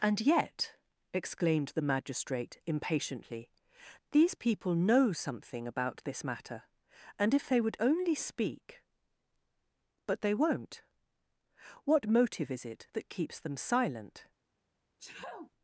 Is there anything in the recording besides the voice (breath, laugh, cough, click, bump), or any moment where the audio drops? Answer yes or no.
yes